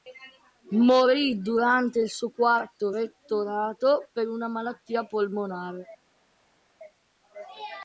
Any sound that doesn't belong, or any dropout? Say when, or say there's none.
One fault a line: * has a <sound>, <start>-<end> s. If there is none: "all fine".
all fine